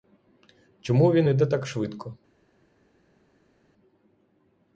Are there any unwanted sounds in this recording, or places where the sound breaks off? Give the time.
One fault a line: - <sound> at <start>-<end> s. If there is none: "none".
none